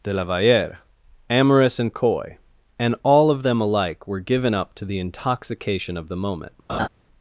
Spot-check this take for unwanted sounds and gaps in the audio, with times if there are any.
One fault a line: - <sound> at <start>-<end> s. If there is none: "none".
- laugh at 6.7-6.9 s